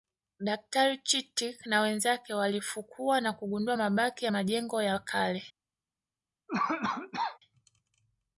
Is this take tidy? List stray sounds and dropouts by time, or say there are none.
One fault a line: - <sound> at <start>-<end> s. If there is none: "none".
- cough at 6.5-7.4 s